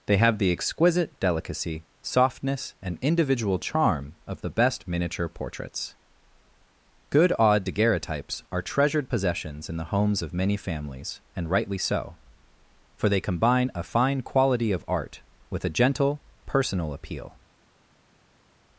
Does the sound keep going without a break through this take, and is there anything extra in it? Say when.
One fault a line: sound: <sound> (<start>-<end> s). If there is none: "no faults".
no faults